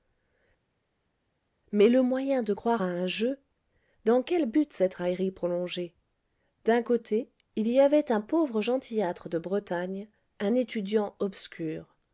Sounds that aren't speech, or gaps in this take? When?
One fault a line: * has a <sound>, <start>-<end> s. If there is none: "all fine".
all fine